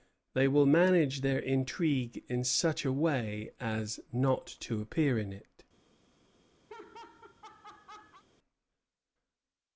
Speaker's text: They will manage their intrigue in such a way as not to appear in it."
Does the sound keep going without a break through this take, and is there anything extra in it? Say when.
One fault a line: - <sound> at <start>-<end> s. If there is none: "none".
- laugh at 6.7-8.2 s